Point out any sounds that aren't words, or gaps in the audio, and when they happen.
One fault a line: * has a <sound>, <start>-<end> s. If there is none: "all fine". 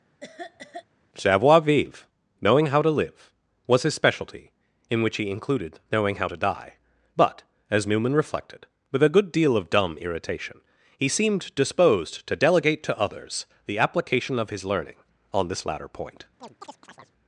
* has a cough, 0.2-0.8 s
* has a chirp, 16.4-17.1 s